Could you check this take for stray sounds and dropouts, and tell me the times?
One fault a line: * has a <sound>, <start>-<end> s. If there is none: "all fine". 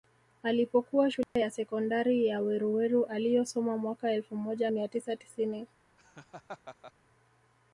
* has a dropout, 1.2-1.4 s
* has a laugh, 6.0-6.9 s